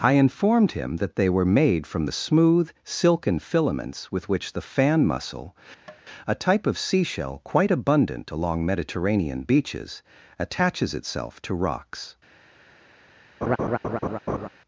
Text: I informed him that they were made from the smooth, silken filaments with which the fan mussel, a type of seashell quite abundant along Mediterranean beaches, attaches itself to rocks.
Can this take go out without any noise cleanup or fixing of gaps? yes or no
no